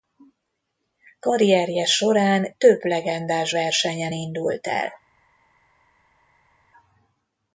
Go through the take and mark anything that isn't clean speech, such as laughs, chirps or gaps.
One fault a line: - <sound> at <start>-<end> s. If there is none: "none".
none